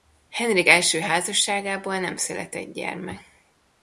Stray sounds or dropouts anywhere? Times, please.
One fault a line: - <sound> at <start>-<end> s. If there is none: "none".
none